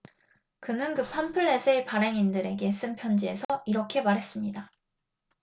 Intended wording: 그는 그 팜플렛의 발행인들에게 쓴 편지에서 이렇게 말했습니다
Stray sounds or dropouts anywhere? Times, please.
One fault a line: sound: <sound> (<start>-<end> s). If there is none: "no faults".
sound: dropout (3.4-3.5 s)